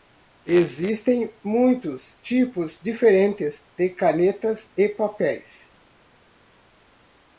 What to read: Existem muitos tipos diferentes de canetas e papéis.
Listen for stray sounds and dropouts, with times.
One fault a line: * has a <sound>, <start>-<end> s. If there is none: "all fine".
all fine